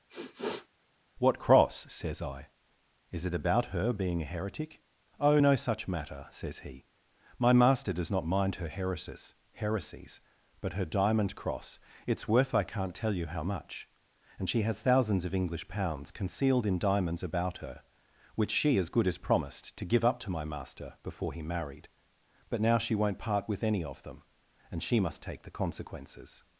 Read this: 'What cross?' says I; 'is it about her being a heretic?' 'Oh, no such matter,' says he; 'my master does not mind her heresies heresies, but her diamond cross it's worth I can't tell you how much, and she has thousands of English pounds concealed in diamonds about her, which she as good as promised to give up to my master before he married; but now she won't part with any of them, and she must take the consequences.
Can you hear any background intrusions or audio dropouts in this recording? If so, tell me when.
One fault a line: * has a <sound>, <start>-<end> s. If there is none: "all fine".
* has a sniff, 0.1-0.7 s